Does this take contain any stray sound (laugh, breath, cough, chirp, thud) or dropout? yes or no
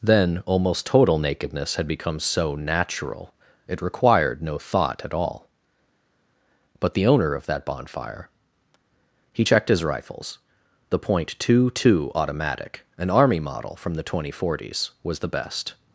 no